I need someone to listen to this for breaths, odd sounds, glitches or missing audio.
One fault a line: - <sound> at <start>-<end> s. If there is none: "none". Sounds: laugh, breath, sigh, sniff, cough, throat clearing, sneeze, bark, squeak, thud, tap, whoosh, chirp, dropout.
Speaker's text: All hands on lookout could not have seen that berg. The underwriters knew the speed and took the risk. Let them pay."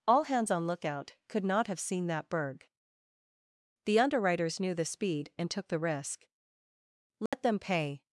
- dropout at 7.3-7.3 s